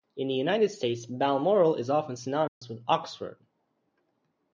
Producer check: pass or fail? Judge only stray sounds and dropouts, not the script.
fail